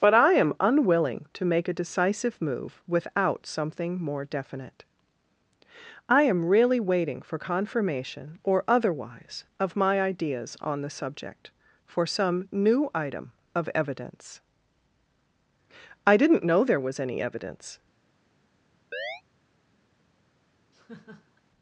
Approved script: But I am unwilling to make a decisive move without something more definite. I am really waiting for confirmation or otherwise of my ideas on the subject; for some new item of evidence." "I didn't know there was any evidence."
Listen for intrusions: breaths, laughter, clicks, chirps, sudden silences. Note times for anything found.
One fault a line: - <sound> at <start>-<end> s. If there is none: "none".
- chirp at 18.9-19.2 s
- laugh at 20.7-21.4 s